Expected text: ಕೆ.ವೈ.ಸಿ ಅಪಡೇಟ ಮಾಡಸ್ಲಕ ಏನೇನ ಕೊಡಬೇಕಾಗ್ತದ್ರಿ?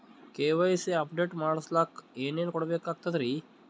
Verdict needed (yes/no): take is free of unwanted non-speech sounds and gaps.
yes